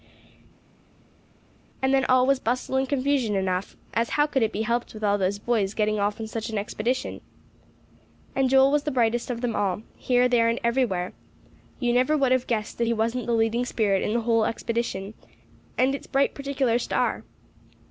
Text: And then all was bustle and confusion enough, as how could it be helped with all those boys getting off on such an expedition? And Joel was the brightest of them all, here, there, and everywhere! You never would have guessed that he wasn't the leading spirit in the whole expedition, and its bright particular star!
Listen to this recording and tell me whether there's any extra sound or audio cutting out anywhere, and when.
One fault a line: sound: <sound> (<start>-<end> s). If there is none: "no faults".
no faults